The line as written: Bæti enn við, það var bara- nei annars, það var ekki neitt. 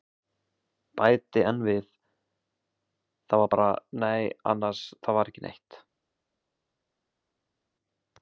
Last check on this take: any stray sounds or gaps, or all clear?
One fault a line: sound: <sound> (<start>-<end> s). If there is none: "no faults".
no faults